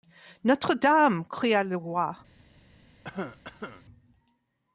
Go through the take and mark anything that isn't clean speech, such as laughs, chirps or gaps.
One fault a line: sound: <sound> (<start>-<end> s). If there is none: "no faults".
sound: cough (3.0-3.8 s)